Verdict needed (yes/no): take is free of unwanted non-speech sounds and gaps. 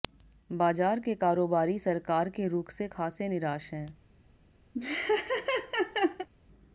no